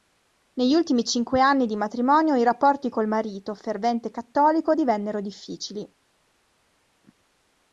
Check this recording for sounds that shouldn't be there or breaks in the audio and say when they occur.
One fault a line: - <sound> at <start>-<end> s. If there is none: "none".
none